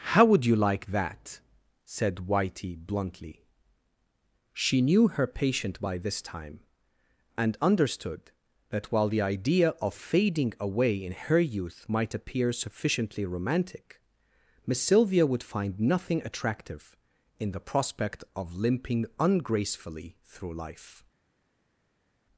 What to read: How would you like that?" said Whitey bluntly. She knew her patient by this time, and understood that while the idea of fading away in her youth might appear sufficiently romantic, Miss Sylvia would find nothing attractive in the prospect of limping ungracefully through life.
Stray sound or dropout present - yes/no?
no